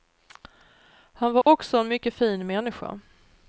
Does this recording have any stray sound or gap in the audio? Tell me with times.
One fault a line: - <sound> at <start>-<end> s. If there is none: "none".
- dropout at 1.4-1.5 s